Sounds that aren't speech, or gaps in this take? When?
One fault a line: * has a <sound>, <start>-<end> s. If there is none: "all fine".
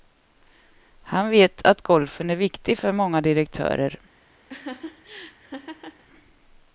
* has a laugh, 4.5-6.0 s